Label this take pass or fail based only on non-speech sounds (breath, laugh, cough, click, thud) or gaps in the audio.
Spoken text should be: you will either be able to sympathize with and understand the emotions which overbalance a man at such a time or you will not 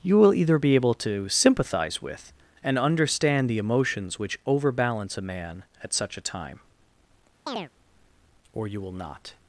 fail